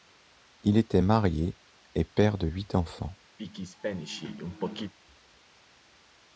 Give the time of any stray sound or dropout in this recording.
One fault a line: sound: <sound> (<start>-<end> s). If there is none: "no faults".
sound: throat clearing (3.4-4.9 s)